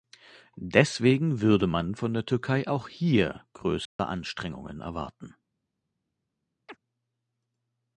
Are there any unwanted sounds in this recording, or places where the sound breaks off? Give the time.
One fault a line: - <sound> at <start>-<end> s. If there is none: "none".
- dropout at 3.9-4.0 s
- chirp at 6.7-6.8 s